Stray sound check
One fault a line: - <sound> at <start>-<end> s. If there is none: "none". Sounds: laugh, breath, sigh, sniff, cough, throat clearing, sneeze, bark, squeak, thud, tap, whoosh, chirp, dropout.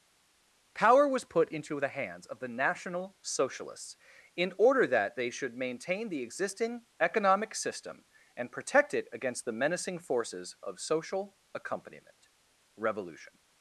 none